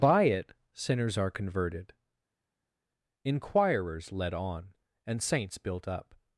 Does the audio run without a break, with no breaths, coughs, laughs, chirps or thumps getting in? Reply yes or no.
yes